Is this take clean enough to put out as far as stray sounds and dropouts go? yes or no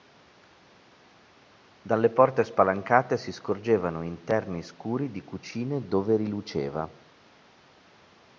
yes